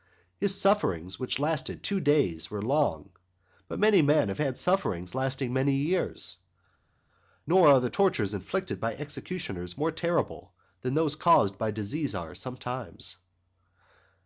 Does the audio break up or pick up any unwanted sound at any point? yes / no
no